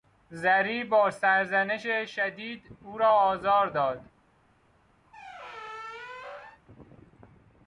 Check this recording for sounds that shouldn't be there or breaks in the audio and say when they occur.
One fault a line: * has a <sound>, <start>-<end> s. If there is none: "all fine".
* has a squeak, 5.1-6.6 s